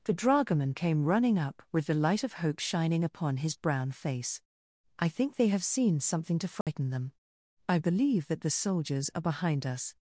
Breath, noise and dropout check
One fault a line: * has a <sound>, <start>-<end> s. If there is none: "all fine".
* has a dropout, 6.6-6.7 s